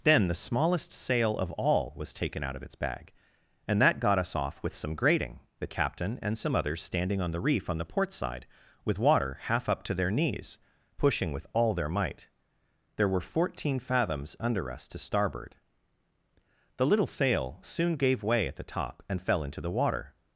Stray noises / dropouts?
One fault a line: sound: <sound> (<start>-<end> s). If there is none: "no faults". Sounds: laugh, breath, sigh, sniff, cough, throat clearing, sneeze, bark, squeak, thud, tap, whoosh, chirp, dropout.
no faults